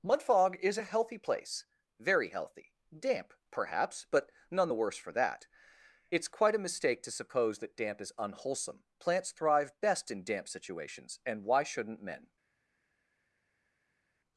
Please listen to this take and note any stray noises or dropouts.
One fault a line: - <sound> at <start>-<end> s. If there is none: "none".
none